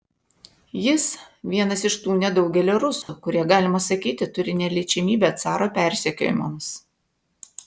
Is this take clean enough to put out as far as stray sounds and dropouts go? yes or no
no